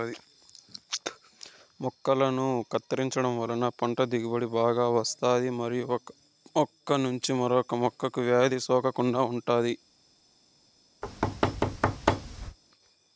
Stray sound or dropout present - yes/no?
yes